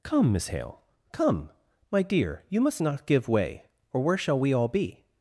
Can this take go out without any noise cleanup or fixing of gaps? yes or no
yes